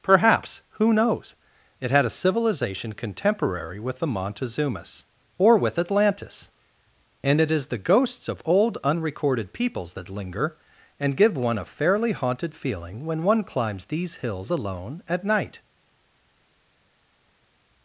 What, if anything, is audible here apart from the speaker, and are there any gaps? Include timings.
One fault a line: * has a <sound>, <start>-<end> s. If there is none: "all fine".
all fine